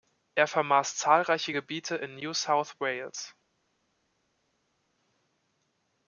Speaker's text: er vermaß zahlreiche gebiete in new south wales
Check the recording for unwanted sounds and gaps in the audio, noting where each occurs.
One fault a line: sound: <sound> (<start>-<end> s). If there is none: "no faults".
no faults